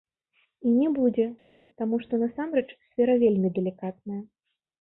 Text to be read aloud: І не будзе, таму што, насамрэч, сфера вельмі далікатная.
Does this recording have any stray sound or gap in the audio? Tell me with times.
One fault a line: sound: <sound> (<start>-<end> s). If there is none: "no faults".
no faults